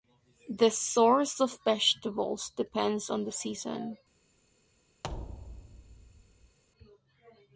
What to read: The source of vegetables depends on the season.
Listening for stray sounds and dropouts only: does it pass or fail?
fail